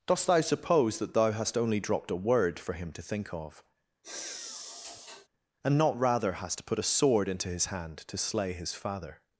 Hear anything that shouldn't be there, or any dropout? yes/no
yes